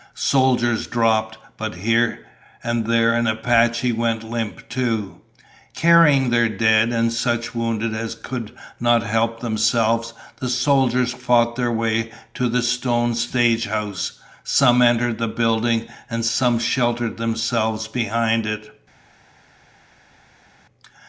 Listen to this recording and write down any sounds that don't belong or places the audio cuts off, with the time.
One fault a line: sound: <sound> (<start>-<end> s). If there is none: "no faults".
no faults